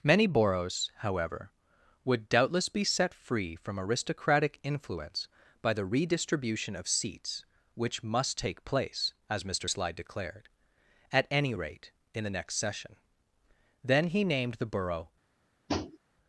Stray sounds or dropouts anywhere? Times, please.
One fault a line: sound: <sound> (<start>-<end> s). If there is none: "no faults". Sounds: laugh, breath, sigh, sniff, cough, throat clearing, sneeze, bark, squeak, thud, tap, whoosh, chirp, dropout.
sound: tap (15.7-16.0 s)